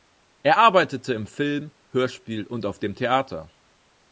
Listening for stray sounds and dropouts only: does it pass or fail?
pass